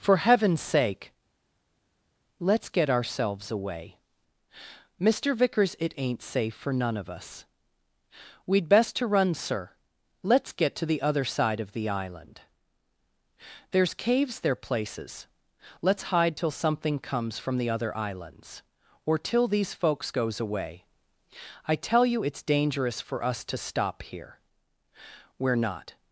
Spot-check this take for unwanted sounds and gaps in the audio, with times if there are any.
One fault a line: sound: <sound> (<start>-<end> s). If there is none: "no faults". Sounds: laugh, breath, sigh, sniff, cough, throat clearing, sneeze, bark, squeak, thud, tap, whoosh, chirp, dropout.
no faults